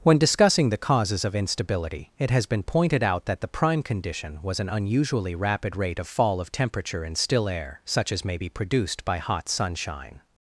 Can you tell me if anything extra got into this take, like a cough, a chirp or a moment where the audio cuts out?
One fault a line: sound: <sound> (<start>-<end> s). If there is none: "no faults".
no faults